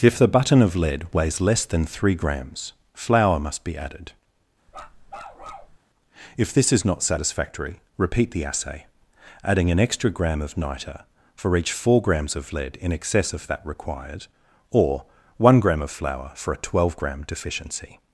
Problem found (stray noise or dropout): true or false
true